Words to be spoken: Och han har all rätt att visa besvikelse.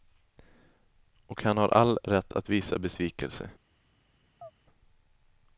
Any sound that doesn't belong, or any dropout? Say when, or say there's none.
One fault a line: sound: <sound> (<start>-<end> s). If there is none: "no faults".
sound: chirp (4.4-4.5 s)